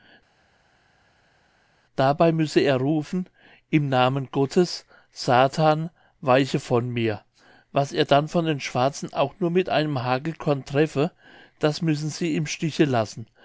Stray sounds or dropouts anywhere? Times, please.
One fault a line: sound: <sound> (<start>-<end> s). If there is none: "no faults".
no faults